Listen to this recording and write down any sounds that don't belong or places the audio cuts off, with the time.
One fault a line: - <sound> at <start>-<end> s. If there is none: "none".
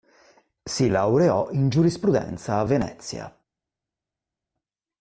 none